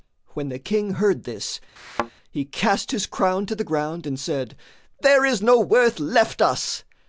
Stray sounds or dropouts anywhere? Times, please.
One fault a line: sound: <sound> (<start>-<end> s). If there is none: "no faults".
sound: thud (1.8-2.1 s)